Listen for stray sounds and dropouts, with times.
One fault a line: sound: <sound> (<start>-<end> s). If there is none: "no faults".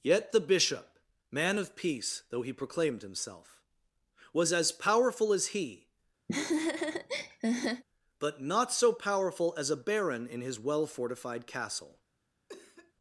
sound: laugh (6.3-7.8 s)
sound: cough (12.5-12.9 s)